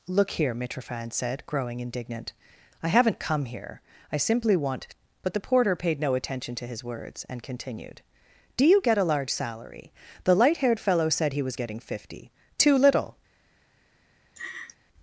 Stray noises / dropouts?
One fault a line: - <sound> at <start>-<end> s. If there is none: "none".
- laugh at 14.4-14.8 s